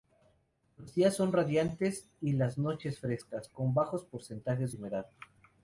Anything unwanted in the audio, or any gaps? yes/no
no